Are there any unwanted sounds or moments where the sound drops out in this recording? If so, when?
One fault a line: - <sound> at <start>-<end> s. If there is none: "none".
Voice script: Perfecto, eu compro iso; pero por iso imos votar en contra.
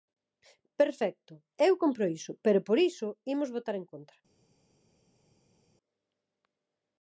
none